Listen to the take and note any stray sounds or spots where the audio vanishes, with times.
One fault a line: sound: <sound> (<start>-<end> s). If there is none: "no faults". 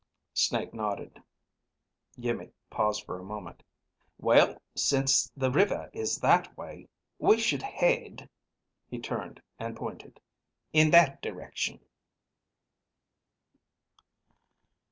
no faults